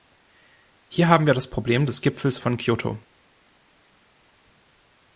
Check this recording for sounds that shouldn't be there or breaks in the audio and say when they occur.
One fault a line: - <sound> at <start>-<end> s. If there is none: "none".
none